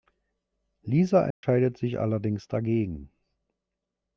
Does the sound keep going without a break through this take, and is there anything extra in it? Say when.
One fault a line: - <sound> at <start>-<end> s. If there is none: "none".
- dropout at 1.3-1.4 s